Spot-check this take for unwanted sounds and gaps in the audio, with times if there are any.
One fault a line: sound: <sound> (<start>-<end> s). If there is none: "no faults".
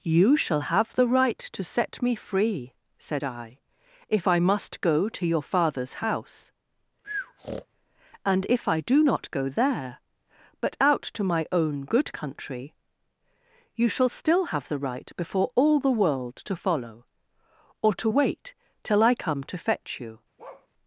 sound: breath (7.0-7.7 s)
sound: bark (20.4-20.7 s)